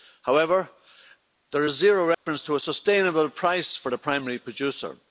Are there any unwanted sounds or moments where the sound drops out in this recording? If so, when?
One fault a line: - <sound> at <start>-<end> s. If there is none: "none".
- dropout at 2.1-2.3 s